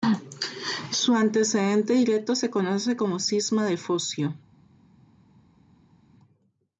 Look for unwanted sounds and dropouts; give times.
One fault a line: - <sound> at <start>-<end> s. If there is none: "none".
none